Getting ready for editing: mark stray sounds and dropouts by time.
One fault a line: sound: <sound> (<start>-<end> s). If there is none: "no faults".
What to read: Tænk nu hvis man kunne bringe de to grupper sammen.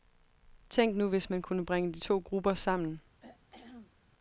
sound: throat clearing (3.2-4.0 s)